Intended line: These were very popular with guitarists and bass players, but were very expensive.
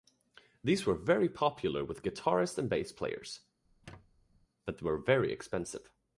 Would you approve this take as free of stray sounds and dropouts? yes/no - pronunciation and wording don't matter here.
no